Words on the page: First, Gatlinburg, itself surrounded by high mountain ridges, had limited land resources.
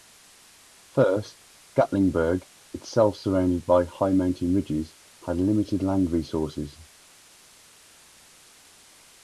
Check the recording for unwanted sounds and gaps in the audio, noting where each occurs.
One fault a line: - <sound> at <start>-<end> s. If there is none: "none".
none